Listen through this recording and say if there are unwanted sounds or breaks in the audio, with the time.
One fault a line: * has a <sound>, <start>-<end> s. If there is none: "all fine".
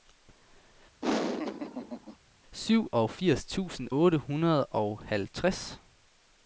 * has a laugh, 1.0-2.2 s